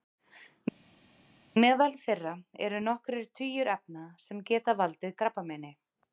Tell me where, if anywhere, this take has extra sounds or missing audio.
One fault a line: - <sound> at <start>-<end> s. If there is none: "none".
none